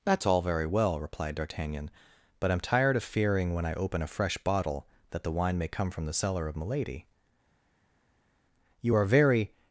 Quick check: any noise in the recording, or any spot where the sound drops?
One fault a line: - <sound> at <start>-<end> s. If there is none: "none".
none